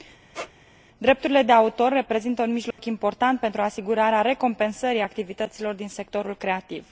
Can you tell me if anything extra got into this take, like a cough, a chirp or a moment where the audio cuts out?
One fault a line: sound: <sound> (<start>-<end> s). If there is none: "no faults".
sound: squeak (0.3-0.5 s)
sound: dropout (2.7-2.8 s)